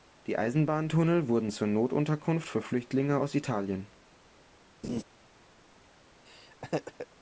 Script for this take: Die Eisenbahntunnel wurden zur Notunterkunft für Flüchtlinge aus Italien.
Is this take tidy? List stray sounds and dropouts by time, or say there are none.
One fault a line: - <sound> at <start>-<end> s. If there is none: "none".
- laugh at 4.8-5.0 s
- laugh at 6.3-7.1 s